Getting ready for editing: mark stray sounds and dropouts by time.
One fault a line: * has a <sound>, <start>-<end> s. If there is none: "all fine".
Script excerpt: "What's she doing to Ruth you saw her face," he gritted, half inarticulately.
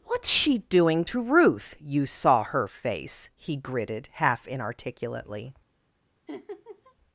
* has a laugh, 6.3-6.9 s